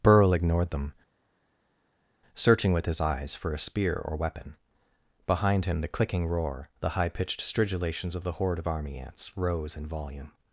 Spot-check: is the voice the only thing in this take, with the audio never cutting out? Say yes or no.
yes